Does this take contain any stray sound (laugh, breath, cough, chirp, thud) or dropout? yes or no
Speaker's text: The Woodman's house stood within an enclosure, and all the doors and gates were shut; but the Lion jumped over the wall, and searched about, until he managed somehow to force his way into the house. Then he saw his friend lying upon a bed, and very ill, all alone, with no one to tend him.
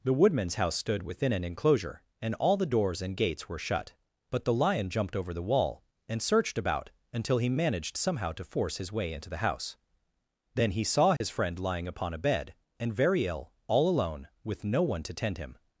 yes